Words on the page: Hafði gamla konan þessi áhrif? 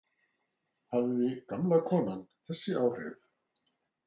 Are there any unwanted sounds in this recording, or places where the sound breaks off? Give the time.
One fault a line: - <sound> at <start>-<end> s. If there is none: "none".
none